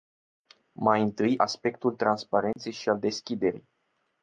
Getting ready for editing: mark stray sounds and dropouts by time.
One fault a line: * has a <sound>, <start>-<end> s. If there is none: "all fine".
* has a dropout, 2.5-2.6 s